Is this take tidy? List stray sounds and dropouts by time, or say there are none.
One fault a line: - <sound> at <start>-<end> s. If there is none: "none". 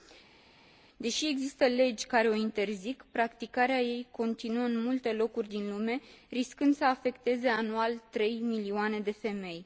none